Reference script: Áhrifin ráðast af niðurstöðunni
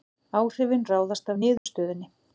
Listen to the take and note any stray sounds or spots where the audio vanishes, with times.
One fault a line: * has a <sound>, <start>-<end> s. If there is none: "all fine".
* has a dropout, 1.6-1.7 s